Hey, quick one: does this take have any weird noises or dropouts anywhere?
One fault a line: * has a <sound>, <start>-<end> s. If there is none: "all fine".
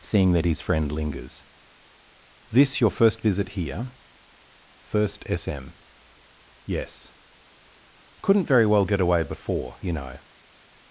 all fine